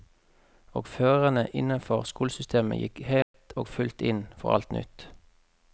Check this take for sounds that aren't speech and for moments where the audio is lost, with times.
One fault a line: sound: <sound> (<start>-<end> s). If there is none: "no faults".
sound: dropout (3.2-3.3 s)